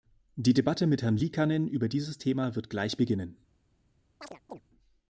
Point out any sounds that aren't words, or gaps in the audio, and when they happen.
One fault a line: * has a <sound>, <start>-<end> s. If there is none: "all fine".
* has a chirp, 4.2-4.6 s